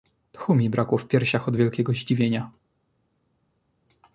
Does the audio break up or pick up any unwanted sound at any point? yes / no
no